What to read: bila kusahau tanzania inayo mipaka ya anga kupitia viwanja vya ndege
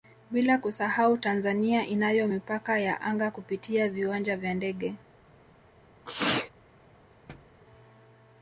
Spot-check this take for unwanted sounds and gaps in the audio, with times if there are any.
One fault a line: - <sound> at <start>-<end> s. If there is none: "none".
- sneeze at 6.1-6.5 s
- thud at 7.3-7.6 s